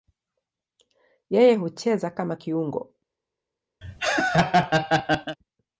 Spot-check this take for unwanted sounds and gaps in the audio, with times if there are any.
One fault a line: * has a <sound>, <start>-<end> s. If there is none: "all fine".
* has a laugh, 3.8-5.4 s